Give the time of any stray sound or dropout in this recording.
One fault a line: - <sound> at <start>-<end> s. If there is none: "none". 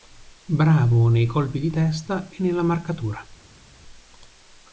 none